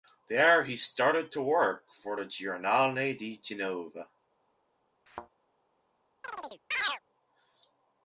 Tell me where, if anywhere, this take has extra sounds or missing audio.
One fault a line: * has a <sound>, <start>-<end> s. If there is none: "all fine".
* has a thud, 5.1-5.3 s
* has a chirp, 6.2-7.0 s